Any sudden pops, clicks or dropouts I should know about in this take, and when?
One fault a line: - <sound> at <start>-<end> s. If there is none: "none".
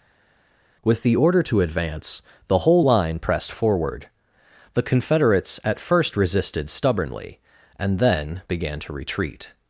none